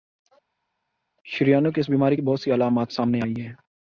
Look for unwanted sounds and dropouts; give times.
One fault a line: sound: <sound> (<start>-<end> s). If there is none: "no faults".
no faults